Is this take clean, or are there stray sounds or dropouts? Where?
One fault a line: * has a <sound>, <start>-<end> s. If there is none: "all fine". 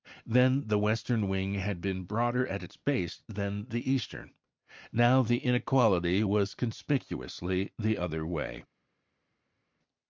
all fine